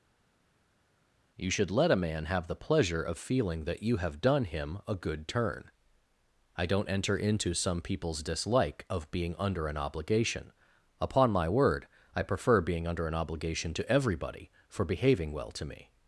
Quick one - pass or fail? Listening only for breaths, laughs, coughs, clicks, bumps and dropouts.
pass